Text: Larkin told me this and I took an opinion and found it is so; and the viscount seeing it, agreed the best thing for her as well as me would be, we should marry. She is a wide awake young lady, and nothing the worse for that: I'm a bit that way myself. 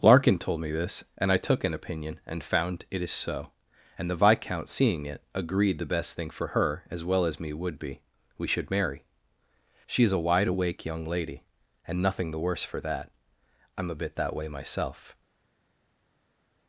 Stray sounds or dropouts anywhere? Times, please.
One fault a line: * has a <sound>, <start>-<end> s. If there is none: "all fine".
all fine